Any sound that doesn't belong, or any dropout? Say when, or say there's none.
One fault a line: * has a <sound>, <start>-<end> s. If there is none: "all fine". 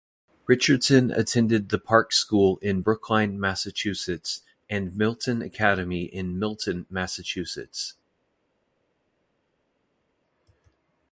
all fine